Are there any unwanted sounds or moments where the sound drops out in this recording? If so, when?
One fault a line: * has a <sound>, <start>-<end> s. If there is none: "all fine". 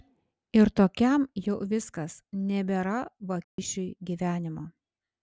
* has a dropout, 3.4-3.6 s